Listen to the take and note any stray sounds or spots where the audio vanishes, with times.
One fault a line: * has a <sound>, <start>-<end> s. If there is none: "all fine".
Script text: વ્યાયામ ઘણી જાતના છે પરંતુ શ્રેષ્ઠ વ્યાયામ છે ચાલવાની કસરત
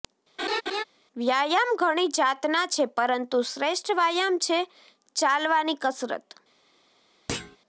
* has a laugh, 0.4-0.8 s
* has a thud, 7.3-7.6 s